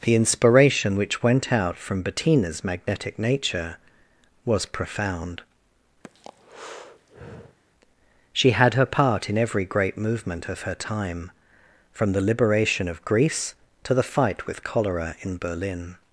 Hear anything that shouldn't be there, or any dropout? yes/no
yes